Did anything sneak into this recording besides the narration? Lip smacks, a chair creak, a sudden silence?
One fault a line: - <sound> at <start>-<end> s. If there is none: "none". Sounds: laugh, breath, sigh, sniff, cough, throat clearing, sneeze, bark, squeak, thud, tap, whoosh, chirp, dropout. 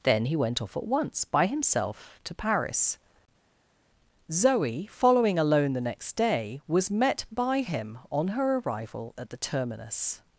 none